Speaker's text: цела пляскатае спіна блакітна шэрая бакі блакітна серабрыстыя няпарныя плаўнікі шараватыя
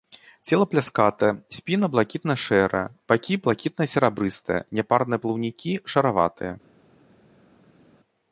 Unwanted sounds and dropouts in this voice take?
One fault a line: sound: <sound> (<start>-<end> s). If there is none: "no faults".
no faults